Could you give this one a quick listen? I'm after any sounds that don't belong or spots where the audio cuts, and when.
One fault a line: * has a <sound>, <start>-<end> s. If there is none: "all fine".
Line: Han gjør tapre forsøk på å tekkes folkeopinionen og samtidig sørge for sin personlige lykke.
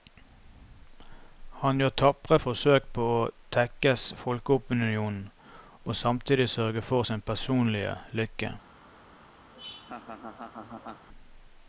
* has a laugh, 9.5-11.1 s